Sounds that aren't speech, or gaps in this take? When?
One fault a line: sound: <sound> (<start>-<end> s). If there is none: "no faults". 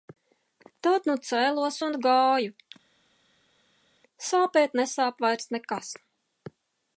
no faults